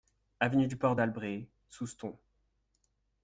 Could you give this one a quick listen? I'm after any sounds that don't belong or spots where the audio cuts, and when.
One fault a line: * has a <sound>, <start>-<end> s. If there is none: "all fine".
all fine